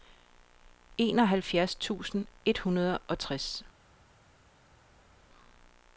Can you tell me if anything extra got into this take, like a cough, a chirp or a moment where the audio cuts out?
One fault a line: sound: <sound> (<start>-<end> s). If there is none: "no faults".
no faults